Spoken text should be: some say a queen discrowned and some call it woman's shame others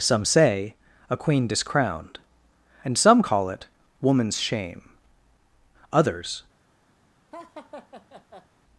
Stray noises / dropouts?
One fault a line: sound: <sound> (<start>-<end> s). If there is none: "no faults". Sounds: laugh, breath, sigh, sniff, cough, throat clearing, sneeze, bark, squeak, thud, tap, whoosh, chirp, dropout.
sound: laugh (7.3-8.5 s)